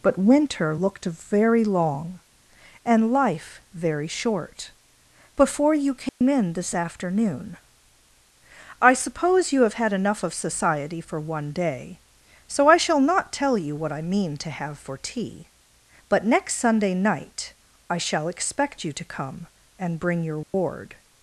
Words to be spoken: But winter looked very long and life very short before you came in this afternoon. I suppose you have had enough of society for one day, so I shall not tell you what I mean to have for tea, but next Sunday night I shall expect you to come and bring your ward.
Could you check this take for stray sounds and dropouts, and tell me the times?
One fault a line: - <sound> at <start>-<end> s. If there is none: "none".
- dropout at 6.1-6.2 s
- dropout at 20.4-20.5 s